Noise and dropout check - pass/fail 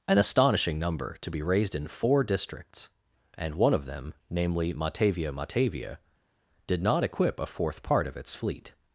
pass